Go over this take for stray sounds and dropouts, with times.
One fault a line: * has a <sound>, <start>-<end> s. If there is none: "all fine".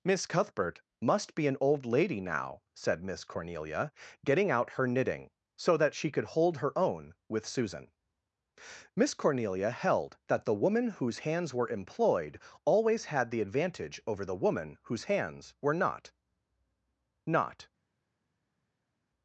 all fine